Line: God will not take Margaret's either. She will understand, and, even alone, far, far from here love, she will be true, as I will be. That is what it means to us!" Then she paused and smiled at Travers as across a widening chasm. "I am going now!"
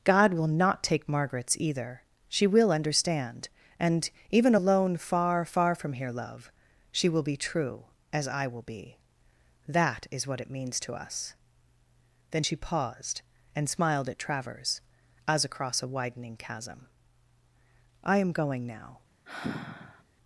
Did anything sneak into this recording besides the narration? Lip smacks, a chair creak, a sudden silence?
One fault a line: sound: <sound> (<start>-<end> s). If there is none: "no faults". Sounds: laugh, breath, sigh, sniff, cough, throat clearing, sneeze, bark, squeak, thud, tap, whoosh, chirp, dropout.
sound: sigh (19.3-20.0 s)